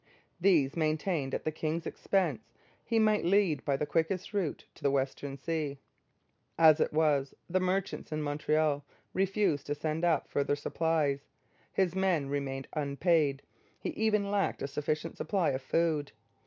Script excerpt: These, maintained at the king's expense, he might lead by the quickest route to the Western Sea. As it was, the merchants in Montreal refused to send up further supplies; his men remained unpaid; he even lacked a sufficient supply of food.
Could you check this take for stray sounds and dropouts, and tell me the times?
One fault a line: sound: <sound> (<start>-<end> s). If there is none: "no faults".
no faults